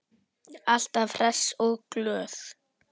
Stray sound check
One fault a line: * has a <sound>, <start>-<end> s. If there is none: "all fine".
all fine